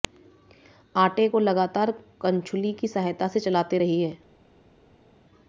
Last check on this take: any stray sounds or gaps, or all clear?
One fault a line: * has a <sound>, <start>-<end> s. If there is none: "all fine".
all fine